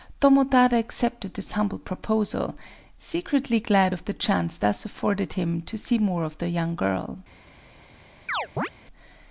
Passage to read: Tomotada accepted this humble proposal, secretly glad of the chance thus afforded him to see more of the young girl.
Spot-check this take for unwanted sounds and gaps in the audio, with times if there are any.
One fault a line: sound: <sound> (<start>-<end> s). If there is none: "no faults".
sound: chirp (8.3-8.7 s)